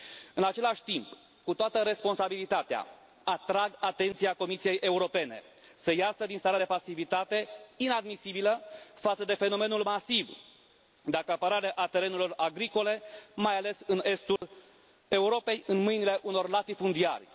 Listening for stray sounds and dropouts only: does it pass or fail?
fail